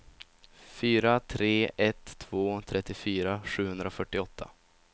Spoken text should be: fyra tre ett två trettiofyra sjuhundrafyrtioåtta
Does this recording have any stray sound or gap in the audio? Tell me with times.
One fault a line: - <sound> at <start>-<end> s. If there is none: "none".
none